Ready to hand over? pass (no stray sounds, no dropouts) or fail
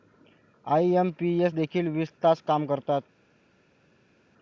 pass